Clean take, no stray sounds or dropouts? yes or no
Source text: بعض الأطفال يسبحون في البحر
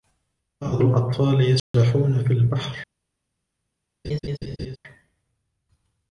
no